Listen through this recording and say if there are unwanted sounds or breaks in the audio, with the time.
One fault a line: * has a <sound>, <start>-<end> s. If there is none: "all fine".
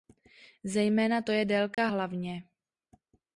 * has a dropout, 1.7-1.8 s